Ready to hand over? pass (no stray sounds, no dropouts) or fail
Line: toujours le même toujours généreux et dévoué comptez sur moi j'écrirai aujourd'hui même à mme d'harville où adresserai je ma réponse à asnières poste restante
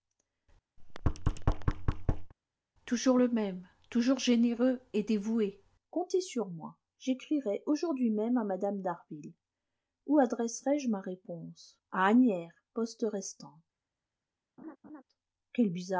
fail